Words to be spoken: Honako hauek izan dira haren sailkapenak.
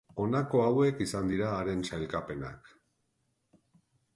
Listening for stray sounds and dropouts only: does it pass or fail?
pass